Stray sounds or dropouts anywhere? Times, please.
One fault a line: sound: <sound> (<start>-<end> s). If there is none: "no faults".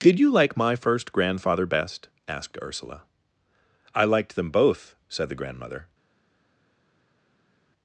no faults